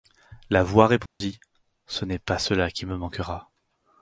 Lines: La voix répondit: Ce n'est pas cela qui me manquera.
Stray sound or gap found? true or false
true